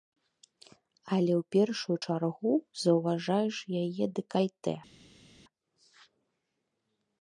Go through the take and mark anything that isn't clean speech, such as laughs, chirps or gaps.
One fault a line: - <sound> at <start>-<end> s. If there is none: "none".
none